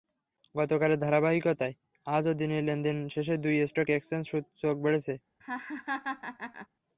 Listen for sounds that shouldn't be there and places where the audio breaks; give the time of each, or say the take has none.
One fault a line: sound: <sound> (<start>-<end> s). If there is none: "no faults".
sound: laugh (5.4-6.7 s)